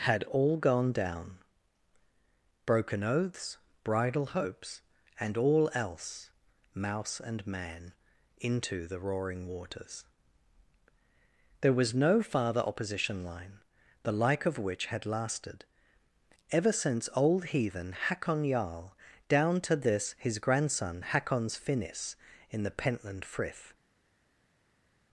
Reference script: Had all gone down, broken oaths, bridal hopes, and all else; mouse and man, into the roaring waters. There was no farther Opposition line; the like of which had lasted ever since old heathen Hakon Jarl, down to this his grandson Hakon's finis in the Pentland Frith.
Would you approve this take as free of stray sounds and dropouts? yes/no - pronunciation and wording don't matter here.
yes